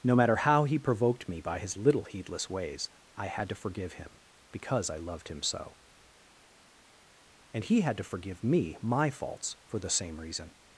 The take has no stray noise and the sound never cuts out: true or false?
true